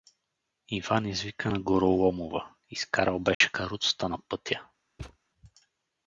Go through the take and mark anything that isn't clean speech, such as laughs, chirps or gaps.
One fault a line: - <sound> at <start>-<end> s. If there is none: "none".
- dropout at 3.3-3.4 s
- thud at 5.0-5.2 s